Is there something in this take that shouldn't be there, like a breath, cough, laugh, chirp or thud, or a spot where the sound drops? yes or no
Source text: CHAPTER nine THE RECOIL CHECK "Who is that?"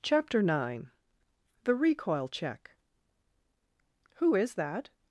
no